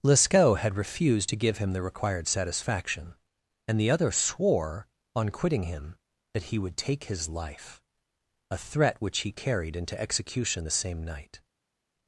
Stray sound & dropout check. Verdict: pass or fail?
pass